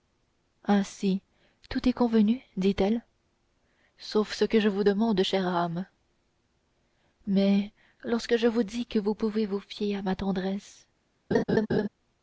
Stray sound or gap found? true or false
true